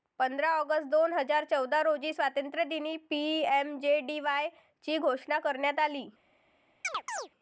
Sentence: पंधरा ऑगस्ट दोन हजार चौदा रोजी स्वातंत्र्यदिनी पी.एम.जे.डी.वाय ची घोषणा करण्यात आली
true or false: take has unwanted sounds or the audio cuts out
true